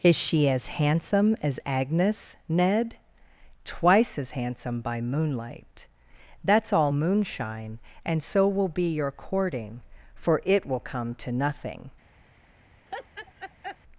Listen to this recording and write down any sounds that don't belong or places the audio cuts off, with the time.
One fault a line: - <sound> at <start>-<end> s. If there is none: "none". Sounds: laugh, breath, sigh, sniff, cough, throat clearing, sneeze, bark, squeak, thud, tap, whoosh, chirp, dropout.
- laugh at 12.9-13.8 s